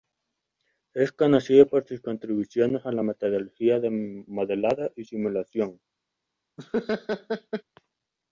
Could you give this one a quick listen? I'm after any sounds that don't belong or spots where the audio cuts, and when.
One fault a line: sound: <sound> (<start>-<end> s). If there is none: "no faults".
sound: laugh (6.6-7.6 s)